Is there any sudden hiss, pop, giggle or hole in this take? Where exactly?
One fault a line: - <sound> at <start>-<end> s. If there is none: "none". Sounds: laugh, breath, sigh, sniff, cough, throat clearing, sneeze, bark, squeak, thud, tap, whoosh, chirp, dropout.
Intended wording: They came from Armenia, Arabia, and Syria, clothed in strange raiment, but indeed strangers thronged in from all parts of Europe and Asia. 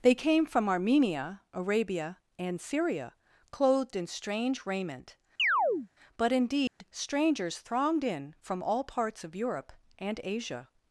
- chirp at 5.4-5.9 s
- dropout at 6.7-6.8 s